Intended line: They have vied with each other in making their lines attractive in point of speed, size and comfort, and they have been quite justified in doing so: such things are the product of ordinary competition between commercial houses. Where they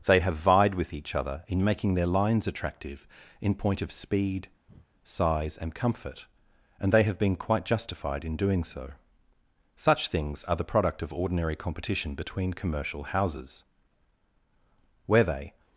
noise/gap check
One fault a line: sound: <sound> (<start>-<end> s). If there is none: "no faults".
sound: breath (4.7-4.9 s)